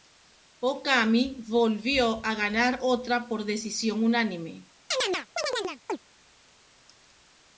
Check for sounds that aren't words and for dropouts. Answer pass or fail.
fail